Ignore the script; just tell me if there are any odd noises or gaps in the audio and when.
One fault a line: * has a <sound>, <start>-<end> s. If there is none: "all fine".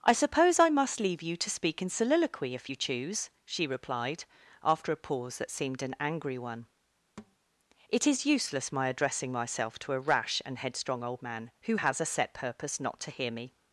* has a thud, 7.2-7.4 s